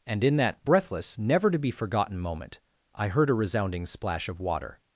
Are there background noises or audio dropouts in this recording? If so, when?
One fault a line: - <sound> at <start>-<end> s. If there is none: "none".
none